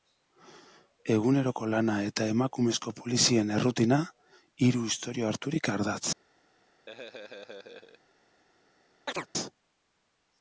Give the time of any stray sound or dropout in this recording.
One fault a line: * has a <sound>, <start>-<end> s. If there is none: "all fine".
* has a laugh, 6.9-8.0 s
* has a chirp, 9.1-9.3 s